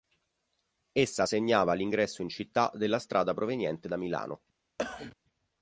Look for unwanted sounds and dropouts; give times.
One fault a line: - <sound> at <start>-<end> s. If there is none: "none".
- cough at 4.8-5.2 s